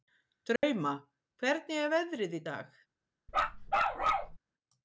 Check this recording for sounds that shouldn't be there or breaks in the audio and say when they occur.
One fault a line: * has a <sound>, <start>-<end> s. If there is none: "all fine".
* has a dropout, 0.6-0.6 s
* has a bark, 3.3-4.4 s